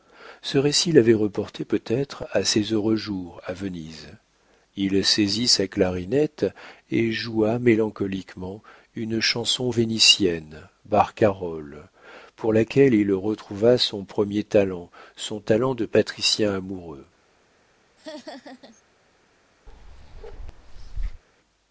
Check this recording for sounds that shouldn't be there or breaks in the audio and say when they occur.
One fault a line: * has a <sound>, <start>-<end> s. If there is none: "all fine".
* has a laugh, 18.0-18.8 s
* has a bark, 19.7-21.2 s